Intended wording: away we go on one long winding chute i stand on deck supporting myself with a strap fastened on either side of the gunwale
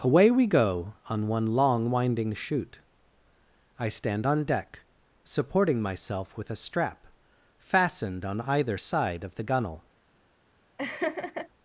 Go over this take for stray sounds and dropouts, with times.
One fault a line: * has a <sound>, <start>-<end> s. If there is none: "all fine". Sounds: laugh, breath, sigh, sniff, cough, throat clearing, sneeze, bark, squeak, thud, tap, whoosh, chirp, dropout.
* has a laugh, 10.8-11.5 s